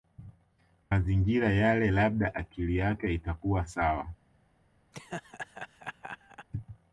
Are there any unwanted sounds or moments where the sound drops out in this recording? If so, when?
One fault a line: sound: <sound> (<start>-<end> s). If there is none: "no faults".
sound: laugh (4.9-6.5 s)